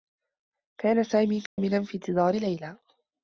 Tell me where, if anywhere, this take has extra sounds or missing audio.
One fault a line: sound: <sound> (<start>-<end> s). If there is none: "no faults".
sound: dropout (1.5-1.6 s)